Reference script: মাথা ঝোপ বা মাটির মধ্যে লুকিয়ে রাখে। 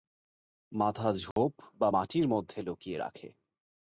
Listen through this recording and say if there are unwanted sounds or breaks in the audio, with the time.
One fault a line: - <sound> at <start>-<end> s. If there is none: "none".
- dropout at 1.3-1.4 s